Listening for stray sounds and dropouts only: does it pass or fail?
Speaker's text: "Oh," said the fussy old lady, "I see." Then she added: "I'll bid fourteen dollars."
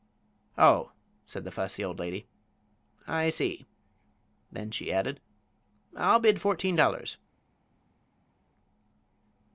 pass